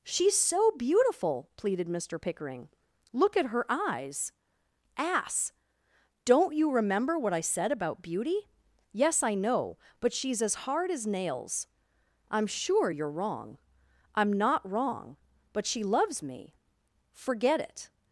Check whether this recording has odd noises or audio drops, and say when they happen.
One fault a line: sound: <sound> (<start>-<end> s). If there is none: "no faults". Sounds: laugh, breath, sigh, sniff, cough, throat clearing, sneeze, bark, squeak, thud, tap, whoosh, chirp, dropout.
no faults